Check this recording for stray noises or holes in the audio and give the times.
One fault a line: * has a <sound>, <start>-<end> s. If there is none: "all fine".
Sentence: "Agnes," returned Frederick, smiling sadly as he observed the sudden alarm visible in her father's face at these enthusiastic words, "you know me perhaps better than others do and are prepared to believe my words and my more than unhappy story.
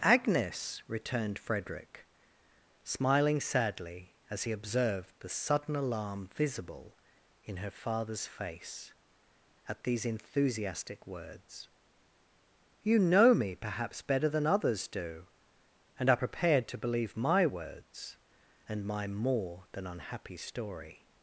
all fine